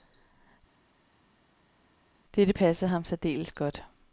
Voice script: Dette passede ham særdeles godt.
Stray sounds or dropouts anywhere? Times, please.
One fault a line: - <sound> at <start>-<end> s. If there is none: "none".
none